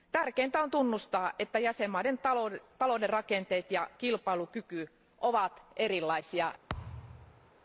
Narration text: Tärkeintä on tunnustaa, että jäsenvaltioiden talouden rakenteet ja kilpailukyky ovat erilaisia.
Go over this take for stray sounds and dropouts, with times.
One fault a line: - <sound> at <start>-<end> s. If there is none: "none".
- thud at 6.7-7.5 s